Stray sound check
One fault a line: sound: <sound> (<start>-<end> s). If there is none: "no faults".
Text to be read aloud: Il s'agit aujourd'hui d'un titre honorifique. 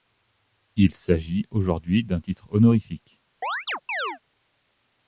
sound: chirp (3.4-4.2 s)